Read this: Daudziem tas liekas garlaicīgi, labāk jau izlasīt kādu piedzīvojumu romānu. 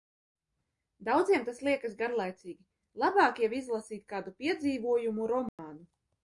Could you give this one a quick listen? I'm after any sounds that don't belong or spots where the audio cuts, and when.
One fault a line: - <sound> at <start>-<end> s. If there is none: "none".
- dropout at 5.5-5.6 s